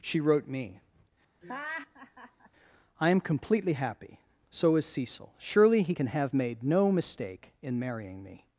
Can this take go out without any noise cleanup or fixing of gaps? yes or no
no